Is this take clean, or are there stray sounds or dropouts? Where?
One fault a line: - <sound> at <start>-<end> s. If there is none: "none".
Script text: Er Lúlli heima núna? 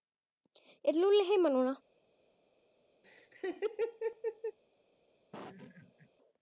- laugh at 3.0-4.6 s
- laugh at 5.3-6.1 s